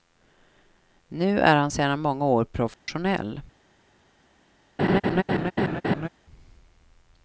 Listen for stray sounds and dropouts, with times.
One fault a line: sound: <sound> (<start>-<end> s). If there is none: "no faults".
sound: dropout (2.7-2.9 s)
sound: laugh (4.8-6.1 s)